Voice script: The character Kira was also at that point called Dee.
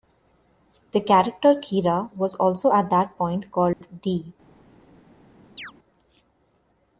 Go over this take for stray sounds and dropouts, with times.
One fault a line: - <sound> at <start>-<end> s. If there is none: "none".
- dropout at 3.7-3.8 s
- chirp at 5.6-5.7 s